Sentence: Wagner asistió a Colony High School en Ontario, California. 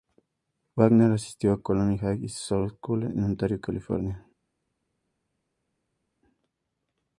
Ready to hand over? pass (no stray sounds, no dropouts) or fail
pass